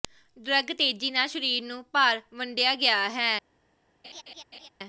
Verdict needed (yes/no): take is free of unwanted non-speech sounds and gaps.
no